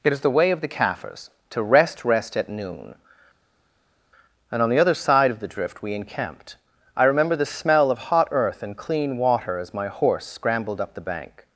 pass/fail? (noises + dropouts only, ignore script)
pass